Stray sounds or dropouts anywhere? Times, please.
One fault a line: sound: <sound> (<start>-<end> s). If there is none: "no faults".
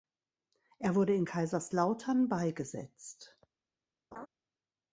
sound: laugh (4.1-4.3 s)